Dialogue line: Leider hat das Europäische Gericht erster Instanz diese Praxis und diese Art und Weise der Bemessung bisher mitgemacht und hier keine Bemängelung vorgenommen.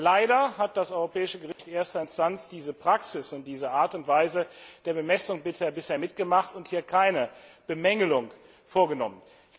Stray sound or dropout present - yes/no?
yes